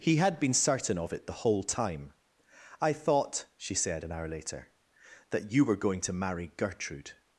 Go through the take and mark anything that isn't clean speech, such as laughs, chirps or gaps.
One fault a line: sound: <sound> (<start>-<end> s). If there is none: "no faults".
no faults